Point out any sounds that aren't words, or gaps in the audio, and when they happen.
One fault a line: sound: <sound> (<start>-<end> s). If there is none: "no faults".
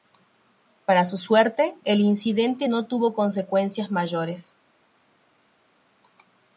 no faults